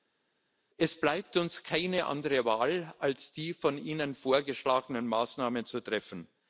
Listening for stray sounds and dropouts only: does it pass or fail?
pass